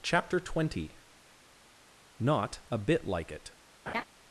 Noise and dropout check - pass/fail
fail